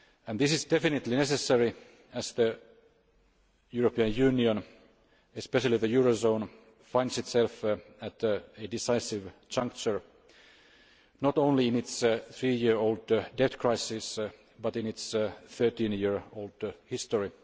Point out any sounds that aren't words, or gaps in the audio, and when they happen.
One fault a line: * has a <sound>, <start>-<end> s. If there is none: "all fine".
all fine